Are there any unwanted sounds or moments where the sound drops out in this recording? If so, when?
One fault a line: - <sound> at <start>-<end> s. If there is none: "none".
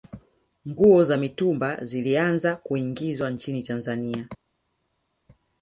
none